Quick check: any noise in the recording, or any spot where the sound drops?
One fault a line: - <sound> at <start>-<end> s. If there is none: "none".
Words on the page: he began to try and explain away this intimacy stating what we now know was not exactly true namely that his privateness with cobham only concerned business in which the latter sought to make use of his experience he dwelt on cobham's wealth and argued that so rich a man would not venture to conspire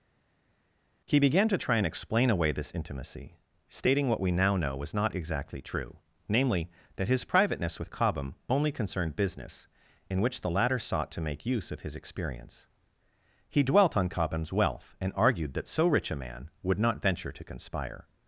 none